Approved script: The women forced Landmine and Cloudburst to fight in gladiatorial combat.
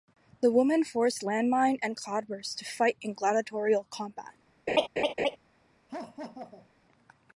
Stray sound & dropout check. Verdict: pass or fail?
fail